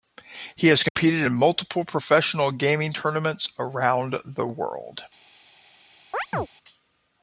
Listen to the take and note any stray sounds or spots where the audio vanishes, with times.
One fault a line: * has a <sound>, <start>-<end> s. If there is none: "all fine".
* has a dropout, 0.9-1.0 s
* has a chirp, 6.1-6.5 s